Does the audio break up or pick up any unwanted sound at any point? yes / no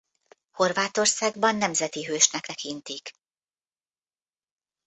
no